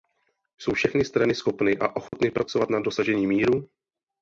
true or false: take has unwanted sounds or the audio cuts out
true